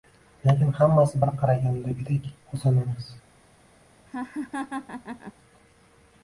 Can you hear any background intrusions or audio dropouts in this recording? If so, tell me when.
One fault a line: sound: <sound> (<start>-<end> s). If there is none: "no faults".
sound: laugh (4.1-5.3 s)